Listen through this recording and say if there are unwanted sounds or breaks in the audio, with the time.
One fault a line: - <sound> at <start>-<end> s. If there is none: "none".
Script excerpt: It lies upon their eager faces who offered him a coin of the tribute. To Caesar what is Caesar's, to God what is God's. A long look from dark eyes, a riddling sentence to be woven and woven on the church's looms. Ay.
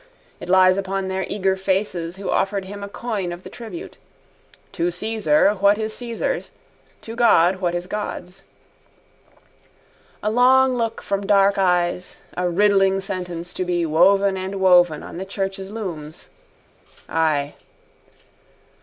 none